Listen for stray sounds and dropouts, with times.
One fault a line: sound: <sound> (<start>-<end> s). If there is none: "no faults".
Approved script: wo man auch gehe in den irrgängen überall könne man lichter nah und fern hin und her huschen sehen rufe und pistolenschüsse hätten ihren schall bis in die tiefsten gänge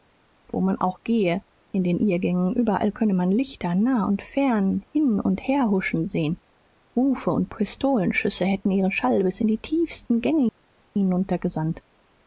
no faults